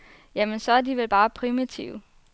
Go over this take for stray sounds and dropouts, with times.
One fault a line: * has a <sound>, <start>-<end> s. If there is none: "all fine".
all fine